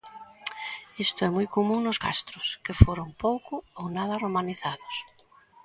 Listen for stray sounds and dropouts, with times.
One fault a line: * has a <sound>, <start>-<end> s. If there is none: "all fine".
all fine